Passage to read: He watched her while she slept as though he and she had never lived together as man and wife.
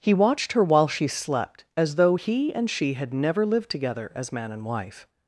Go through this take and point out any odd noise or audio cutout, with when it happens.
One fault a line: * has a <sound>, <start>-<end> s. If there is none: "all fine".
all fine